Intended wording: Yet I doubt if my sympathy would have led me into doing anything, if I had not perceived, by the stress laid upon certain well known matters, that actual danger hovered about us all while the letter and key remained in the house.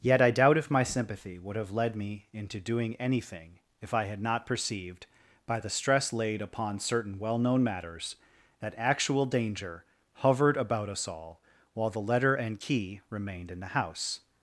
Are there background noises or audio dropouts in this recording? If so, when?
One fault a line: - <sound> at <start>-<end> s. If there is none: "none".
none